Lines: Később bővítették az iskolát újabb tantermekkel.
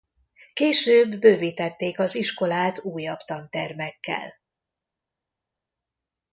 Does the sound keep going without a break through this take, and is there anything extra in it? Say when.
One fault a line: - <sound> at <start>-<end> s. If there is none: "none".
none